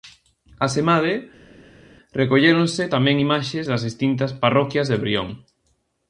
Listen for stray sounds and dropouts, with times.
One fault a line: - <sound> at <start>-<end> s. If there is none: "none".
none